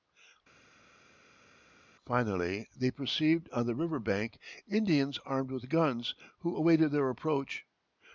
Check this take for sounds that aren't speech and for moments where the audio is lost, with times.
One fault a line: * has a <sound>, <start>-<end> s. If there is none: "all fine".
all fine